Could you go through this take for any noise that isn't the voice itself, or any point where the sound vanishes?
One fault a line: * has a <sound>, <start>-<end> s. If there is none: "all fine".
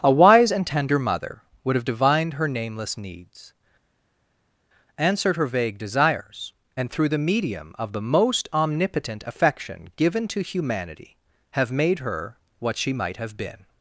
all fine